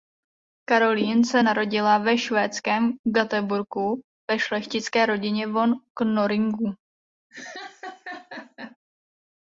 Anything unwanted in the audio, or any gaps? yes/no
yes